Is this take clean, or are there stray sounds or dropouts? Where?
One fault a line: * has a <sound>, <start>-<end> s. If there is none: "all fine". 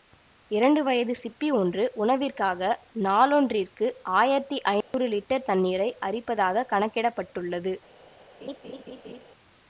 * has a dropout, 4.8-4.9 s
* has a laugh, 8.4-9.2 s